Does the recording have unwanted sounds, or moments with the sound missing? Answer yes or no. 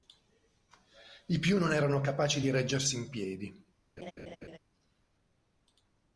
yes